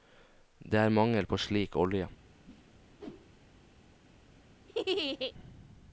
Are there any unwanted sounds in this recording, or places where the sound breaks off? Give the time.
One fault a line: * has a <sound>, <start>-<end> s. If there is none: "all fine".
* has a whoosh, 2.4-3.5 s
* has a laugh, 4.7-5.3 s